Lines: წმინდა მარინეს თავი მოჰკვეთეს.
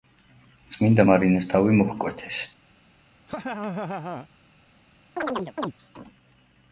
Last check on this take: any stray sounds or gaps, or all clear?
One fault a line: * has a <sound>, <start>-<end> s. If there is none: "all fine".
* has a laugh, 3.3-4.3 s
* has a chirp, 5.2-5.7 s